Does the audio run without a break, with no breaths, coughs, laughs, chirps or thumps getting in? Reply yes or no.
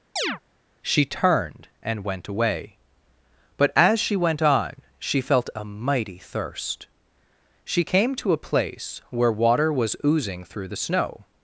no